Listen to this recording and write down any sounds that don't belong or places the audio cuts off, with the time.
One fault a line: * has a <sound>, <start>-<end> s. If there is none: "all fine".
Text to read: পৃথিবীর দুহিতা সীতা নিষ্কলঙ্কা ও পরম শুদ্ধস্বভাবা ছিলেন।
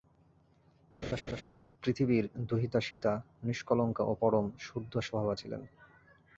* has a laugh, 1.0-1.4 s
* has a dropout, 2.9-3.0 s